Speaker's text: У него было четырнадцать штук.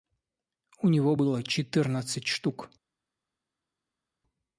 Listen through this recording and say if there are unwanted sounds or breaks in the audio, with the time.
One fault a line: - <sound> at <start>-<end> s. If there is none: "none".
none